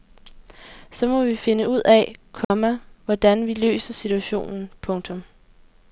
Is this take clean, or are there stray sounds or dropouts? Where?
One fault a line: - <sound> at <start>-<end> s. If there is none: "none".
- dropout at 2.4-2.5 s